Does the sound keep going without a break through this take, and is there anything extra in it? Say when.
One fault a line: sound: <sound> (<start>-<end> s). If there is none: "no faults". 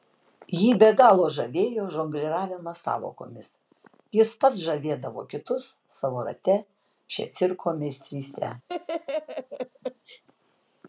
sound: laugh (8.7-10.2 s)